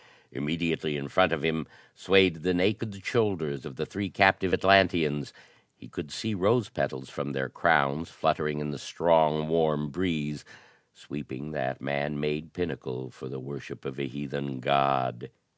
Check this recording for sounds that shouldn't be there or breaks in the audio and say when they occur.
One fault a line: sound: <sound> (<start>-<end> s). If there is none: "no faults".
no faults